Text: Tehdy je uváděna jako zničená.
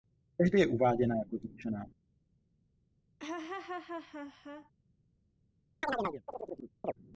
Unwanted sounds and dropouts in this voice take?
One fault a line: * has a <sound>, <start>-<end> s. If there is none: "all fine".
* has a laugh, 3.2-4.7 s
* has a chirp, 5.8-6.9 s